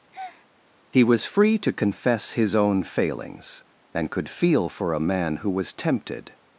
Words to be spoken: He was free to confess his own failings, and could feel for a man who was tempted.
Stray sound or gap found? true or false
true